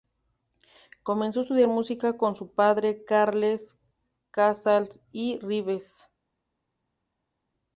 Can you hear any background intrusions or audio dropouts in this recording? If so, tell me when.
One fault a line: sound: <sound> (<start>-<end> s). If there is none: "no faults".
no faults